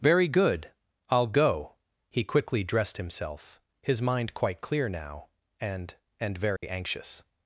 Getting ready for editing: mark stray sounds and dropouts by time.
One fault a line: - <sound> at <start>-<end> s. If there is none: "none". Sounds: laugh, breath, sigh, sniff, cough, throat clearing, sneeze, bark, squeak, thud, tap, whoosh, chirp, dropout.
- dropout at 6.6-6.6 s